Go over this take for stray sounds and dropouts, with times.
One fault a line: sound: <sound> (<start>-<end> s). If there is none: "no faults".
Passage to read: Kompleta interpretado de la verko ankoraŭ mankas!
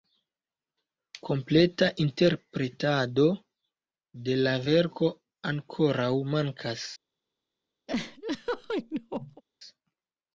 sound: laugh (7.9-9.4 s)